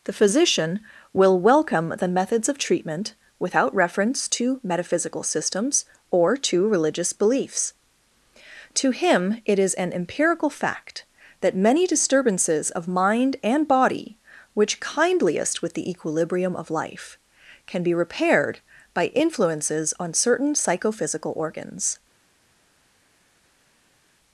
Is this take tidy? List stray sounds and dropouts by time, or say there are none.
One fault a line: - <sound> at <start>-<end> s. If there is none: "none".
none